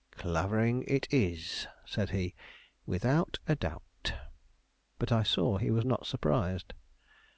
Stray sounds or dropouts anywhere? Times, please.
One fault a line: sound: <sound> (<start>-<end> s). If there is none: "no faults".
no faults